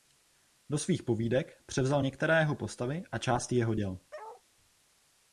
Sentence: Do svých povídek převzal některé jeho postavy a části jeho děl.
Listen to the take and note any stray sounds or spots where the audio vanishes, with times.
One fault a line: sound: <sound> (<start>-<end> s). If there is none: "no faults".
sound: bark (4.1-4.4 s)